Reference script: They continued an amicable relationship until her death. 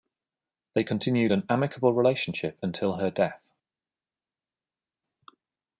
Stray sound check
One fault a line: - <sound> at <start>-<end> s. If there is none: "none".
none